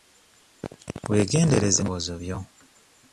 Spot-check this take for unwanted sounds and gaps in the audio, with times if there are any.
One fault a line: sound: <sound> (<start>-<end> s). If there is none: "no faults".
no faults